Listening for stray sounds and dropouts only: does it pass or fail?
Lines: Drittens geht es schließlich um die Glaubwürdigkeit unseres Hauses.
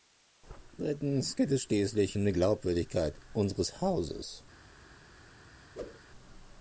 fail